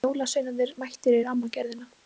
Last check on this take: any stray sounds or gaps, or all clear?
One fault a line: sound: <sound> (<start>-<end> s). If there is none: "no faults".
no faults